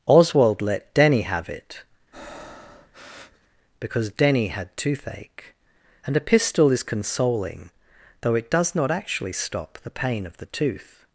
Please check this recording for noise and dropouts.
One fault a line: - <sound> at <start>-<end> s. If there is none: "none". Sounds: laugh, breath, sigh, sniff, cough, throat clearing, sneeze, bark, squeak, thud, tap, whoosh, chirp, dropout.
- breath at 2.1-3.5 s